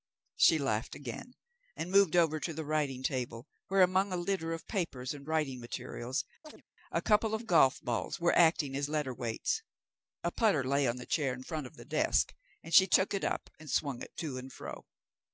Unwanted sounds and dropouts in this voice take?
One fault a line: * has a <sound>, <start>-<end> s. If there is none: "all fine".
* has a chirp, 6.4-6.6 s